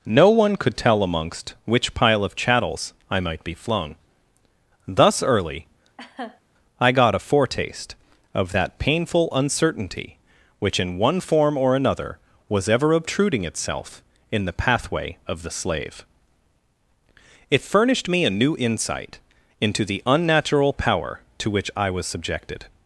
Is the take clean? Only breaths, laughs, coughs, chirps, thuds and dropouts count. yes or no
no